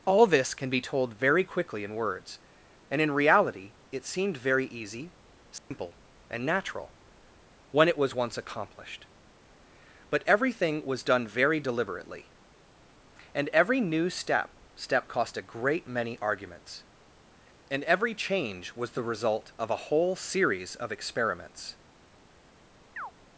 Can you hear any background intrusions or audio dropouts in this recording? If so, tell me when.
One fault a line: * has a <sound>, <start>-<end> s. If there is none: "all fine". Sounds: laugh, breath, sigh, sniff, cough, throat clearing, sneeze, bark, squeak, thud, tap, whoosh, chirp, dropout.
* has a dropout, 5.6-5.7 s
* has a chirp, 23.0-23.1 s